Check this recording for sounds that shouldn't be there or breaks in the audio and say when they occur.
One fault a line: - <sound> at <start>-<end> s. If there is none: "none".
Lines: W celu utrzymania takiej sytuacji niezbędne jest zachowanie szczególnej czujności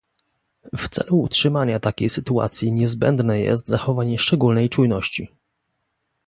none